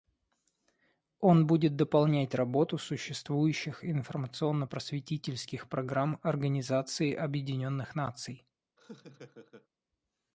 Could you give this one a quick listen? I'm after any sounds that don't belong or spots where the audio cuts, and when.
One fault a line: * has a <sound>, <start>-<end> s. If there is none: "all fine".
* has a laugh, 8.8-9.7 s